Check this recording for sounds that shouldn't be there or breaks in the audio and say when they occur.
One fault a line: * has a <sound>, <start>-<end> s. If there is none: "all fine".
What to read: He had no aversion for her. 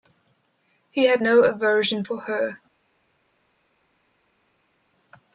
all fine